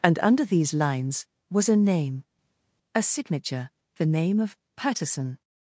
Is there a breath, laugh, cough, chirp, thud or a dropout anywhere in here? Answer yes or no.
no